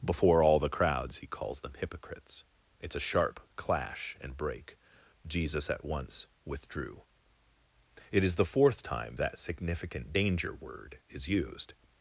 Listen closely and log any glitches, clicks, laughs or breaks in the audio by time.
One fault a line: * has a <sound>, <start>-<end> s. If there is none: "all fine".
all fine